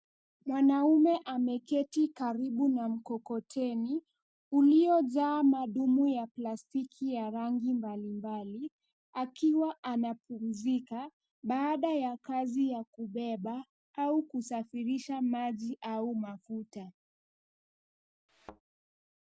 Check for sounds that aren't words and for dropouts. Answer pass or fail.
fail